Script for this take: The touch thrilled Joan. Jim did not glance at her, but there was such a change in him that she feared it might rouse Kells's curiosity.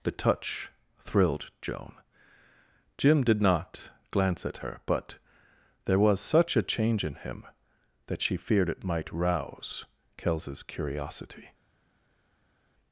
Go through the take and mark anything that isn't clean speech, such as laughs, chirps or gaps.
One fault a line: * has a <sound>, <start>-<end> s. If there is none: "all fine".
all fine